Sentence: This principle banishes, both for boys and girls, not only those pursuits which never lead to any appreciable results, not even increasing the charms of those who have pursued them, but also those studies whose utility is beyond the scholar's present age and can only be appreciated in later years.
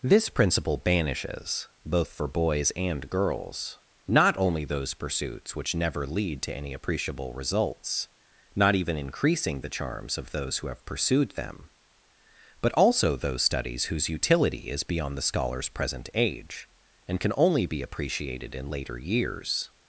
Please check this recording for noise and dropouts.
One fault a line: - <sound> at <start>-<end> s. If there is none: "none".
none